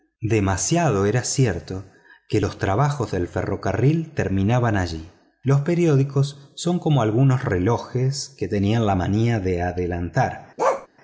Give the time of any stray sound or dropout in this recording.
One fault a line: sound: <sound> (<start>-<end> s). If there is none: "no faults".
sound: bark (10.6-10.9 s)